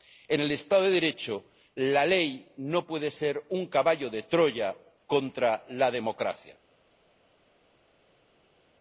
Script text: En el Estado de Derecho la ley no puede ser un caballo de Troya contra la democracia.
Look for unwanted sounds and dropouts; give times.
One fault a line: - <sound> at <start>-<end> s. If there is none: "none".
none